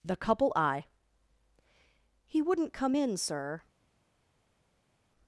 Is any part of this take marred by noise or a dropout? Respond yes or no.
no